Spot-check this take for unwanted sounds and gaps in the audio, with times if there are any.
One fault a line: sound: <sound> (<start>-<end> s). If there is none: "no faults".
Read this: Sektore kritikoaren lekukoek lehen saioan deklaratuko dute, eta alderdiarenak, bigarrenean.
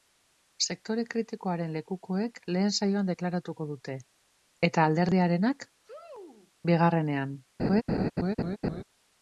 sound: sneeze (5.8-6.5 s)
sound: laugh (7.6-8.8 s)